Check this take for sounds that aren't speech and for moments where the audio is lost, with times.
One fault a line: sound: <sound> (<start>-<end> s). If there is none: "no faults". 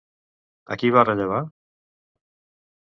no faults